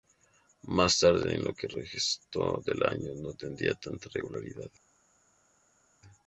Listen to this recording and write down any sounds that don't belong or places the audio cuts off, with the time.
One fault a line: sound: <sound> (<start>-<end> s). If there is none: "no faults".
no faults